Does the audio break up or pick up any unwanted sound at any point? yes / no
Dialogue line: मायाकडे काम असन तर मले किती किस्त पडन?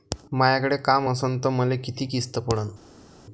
no